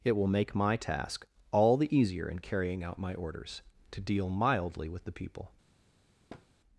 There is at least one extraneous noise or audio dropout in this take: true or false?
true